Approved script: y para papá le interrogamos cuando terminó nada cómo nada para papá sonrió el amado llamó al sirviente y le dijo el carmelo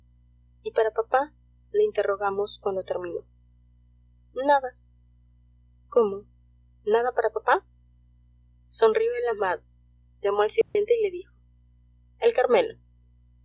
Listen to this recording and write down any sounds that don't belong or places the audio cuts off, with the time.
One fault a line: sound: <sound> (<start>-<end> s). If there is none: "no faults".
sound: dropout (10.6-10.8 s)